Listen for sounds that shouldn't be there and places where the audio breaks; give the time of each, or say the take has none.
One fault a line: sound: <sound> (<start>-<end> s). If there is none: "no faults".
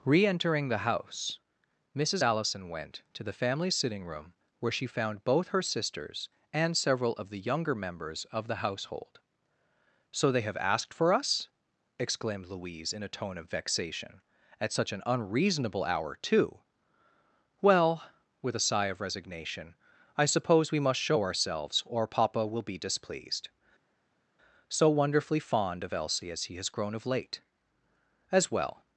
no faults